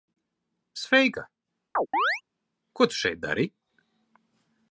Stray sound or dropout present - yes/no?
yes